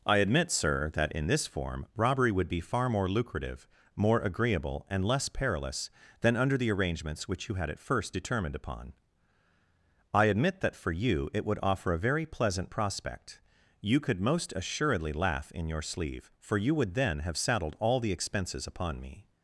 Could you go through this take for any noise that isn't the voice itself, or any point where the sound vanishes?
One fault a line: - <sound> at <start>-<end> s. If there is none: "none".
none